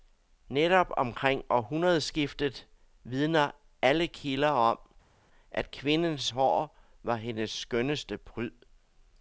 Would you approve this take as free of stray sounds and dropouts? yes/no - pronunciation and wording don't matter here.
yes